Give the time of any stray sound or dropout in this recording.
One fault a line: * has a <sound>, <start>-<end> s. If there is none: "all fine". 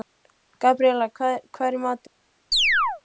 * has a chirp, 2.5-3.0 s